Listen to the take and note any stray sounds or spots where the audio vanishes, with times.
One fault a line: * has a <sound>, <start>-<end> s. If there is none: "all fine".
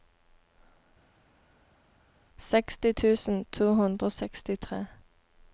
all fine